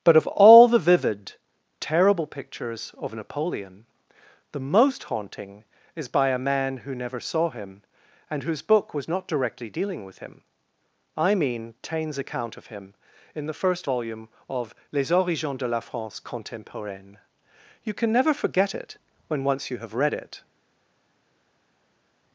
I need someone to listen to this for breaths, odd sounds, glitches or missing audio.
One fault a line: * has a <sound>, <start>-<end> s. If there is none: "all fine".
all fine